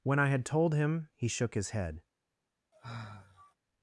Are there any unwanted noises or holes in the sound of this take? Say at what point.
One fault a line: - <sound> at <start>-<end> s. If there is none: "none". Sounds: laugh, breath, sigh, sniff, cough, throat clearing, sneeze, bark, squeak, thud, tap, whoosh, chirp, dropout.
- sigh at 2.7-3.6 s